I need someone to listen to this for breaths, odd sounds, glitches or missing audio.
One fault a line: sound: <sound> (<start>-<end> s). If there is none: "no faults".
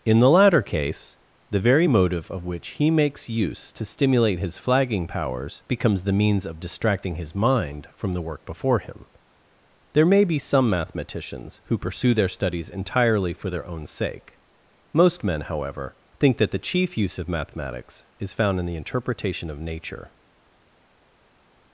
no faults